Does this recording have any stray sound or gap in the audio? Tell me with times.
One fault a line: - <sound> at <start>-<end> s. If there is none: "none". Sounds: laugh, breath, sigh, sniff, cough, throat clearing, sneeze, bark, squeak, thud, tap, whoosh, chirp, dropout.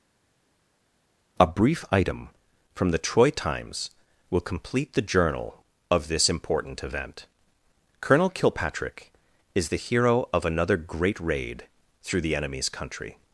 none